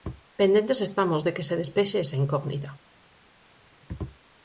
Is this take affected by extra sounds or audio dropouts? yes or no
no